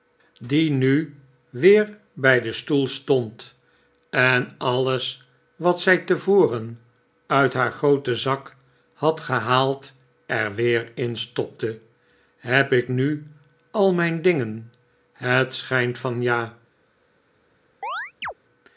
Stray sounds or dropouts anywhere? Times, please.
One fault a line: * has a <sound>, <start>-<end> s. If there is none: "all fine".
* has a chirp, 17.8-18.3 s